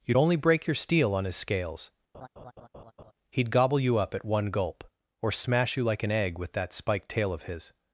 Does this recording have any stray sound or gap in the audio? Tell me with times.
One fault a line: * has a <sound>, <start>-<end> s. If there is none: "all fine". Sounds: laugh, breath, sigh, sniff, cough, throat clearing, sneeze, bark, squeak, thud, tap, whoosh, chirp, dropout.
* has a laugh, 2.1-3.1 s